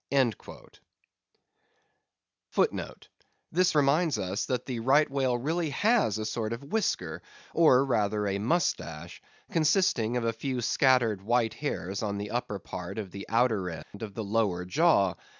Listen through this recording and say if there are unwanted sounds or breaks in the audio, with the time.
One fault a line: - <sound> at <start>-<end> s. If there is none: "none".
- dropout at 13.8-13.9 s